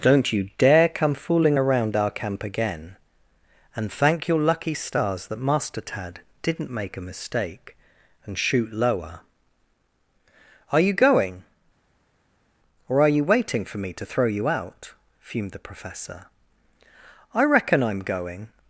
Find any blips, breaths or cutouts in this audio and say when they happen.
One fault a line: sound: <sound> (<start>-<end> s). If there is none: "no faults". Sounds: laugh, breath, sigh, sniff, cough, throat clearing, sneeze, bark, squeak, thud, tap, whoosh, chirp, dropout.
no faults